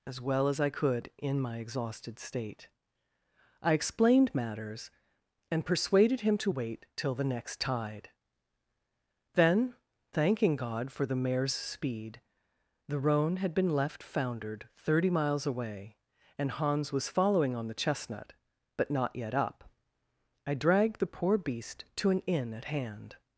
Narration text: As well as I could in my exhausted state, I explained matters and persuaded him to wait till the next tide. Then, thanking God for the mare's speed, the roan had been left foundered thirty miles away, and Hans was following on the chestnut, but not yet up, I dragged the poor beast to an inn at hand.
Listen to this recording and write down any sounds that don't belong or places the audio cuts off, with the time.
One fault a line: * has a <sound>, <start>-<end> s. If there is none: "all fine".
all fine